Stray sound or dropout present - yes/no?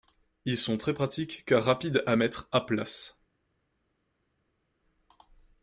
no